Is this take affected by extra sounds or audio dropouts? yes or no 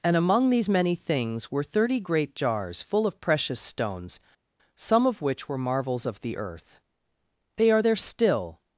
no